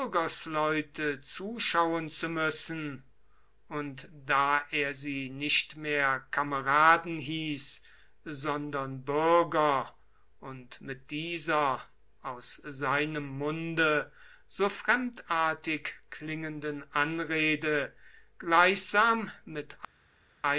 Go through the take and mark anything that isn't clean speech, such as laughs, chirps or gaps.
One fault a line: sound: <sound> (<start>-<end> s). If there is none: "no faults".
no faults